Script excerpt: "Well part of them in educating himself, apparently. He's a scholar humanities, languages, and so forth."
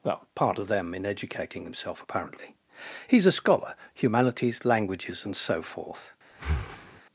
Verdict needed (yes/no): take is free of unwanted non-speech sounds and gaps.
no